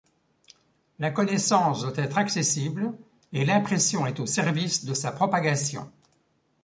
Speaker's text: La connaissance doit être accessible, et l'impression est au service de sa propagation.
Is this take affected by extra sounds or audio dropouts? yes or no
no